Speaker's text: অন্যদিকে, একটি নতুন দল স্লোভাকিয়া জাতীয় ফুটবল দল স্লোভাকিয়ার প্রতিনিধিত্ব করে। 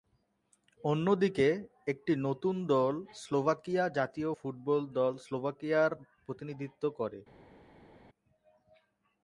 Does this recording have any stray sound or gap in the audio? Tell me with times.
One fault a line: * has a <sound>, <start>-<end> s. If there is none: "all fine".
all fine